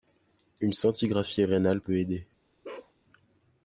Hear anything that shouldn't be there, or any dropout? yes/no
yes